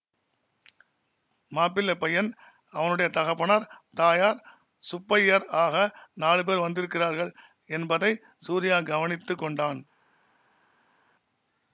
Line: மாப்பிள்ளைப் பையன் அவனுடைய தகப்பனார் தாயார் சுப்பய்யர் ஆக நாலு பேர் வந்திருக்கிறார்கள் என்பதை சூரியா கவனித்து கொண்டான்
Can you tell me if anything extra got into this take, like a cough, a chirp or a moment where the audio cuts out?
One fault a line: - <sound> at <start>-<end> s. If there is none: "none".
none